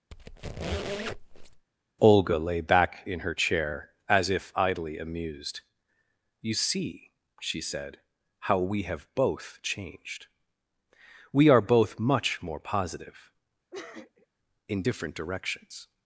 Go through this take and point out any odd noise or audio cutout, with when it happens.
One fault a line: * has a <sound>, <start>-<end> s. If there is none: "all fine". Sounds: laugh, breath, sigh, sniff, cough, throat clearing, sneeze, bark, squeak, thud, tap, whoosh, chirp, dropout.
* has a squeak, 0.1-1.7 s
* has a sniff, 13.7-14.3 s